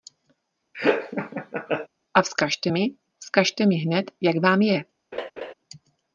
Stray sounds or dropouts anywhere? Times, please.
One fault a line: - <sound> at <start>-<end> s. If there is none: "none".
- laugh at 0.7-1.9 s
- laugh at 5.1-5.5 s